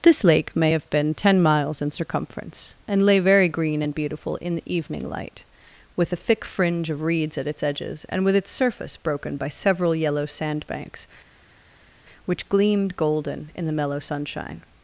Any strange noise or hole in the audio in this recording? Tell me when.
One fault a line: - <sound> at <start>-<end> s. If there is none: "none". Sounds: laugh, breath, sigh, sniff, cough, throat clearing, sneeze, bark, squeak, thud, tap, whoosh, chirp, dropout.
none